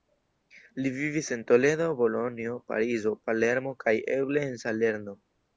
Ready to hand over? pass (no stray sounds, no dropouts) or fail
pass